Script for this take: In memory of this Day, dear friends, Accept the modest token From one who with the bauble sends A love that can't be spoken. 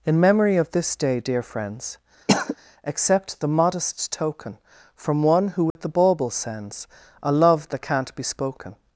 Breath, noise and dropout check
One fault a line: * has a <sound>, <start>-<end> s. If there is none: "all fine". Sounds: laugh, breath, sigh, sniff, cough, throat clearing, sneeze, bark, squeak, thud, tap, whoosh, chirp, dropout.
* has a cough, 2.3-2.6 s
* has a dropout, 5.7-5.8 s